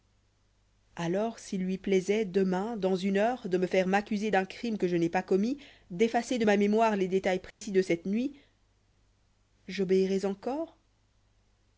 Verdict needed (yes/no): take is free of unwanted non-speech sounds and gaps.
no